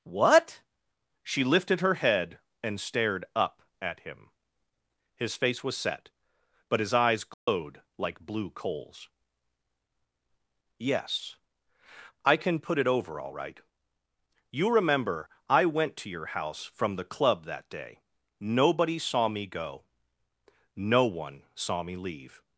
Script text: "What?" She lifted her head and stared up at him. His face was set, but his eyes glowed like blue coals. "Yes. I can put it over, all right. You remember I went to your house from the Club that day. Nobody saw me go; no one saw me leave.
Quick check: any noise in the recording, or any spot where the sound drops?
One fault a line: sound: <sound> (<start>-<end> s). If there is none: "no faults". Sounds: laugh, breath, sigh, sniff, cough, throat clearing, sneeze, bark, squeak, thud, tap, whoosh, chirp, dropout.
sound: dropout (7.3-7.5 s)